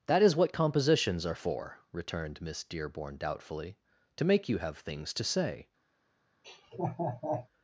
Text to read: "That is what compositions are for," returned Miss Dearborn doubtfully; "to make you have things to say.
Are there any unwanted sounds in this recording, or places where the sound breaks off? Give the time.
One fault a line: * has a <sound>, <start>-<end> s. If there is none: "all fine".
* has a laugh, 6.4-7.5 s